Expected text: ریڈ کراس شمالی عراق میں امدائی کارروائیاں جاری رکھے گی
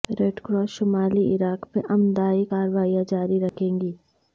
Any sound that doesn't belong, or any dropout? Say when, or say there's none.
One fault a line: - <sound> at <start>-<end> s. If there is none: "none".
- dropout at 3.5-3.6 s